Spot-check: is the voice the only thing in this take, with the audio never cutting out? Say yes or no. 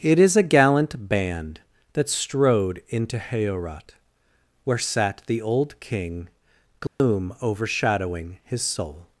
no